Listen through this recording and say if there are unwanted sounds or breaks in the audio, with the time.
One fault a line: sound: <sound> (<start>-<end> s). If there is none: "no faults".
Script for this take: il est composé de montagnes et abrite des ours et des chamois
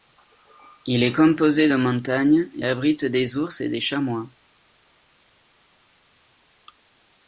no faults